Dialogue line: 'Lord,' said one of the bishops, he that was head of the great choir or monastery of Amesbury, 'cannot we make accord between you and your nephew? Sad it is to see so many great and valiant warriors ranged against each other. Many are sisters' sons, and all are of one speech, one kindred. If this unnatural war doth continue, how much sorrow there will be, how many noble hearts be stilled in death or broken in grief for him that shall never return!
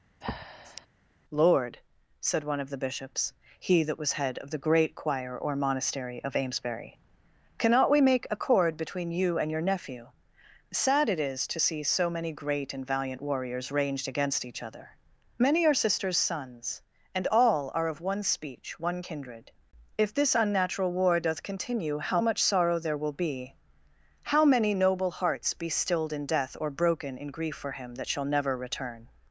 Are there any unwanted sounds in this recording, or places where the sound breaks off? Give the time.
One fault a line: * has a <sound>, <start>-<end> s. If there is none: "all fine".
* has a breath, 0.2-0.9 s